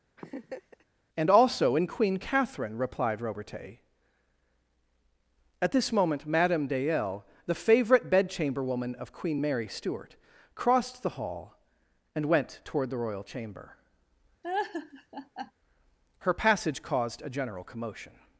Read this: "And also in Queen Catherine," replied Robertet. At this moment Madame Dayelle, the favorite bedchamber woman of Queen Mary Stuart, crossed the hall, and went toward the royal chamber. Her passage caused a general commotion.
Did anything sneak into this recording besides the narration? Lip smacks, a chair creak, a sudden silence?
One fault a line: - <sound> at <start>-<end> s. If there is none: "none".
- laugh at 0.2-0.8 s
- laugh at 14.4-15.5 s